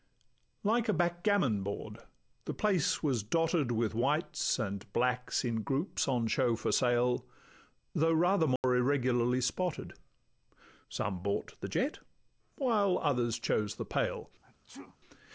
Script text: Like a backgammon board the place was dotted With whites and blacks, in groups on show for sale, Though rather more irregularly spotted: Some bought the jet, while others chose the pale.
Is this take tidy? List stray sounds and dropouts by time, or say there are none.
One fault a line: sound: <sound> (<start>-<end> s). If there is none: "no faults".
sound: dropout (8.6-8.6 s)
sound: sneeze (14.4-15.0 s)